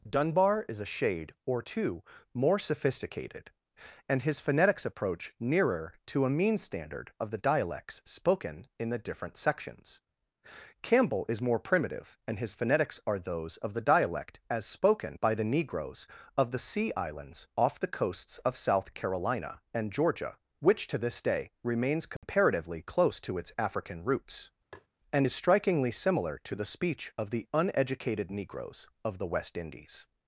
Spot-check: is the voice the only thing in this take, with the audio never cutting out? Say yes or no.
no